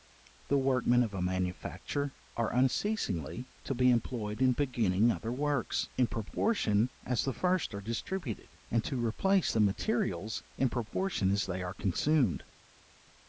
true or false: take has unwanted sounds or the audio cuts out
false